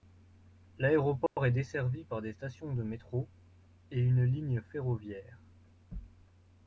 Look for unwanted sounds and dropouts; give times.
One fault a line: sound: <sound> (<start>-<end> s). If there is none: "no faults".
sound: dropout (1.3-1.4 s)